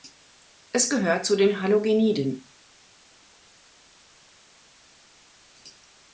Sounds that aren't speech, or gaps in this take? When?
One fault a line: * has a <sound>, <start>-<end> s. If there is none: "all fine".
all fine